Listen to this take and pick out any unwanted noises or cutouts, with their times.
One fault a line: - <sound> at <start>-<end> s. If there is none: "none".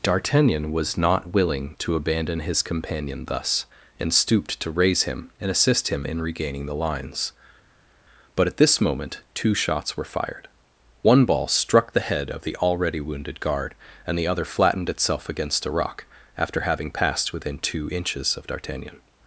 none